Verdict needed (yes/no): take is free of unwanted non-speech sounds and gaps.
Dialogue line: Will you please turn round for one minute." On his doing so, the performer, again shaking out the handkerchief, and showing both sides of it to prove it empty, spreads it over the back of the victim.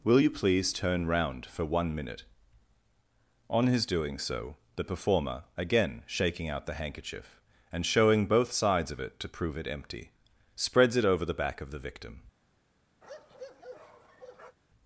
no